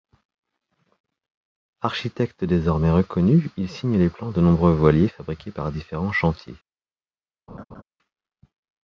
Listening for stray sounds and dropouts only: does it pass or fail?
fail